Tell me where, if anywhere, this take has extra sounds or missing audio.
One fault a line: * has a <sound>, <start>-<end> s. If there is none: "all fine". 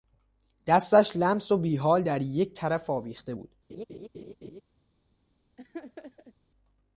* has a laugh, 3.7-4.6 s
* has a laugh, 5.6-6.4 s